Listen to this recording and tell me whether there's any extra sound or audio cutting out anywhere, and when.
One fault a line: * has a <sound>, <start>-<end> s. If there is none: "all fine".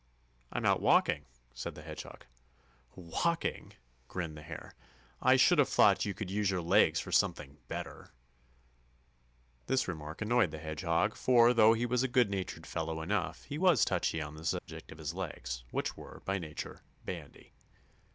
* has a dropout, 14.6-14.7 s